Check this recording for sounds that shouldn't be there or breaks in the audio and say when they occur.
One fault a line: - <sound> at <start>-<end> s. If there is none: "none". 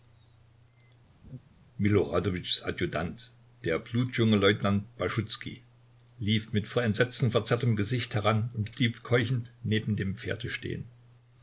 - laugh at 1.2-1.4 s